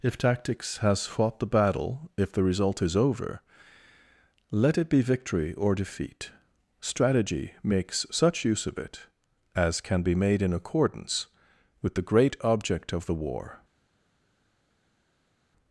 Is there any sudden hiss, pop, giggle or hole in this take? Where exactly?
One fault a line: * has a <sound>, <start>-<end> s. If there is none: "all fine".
all fine